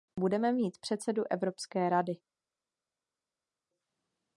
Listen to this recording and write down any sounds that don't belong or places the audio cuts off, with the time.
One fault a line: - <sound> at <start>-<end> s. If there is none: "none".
none